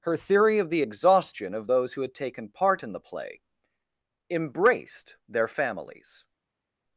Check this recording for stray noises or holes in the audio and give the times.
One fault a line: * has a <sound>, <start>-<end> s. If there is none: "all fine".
all fine